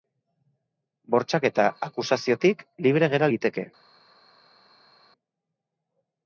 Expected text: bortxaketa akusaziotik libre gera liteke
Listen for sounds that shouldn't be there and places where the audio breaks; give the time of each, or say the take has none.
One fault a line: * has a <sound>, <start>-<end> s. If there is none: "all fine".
all fine